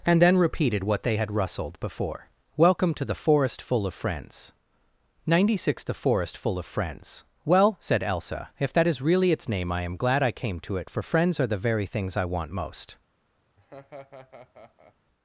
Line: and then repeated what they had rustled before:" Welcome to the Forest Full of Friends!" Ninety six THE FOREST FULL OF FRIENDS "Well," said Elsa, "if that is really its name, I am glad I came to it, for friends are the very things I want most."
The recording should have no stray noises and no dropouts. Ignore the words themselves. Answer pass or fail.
fail